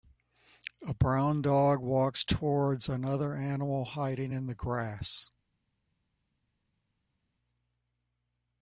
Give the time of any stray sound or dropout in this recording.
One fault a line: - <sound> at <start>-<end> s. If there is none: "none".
none